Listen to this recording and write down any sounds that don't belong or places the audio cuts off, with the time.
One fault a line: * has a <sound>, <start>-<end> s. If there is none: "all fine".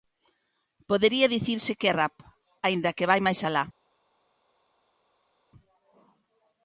all fine